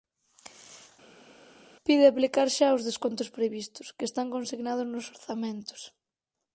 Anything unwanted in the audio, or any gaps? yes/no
no